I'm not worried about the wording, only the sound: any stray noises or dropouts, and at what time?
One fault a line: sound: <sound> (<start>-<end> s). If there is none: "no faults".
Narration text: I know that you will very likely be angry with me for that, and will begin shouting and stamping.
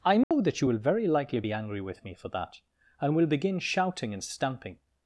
sound: dropout (0.2-0.3 s)